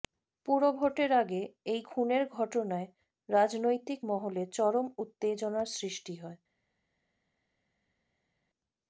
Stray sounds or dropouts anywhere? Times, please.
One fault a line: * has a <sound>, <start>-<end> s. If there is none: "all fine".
all fine